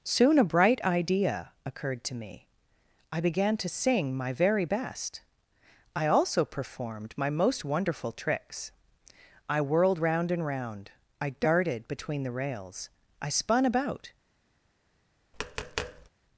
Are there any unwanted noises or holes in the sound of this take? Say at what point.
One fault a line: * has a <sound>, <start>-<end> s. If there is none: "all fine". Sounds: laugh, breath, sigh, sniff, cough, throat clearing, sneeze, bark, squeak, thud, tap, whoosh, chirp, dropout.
* has a tap, 15.3-16.1 s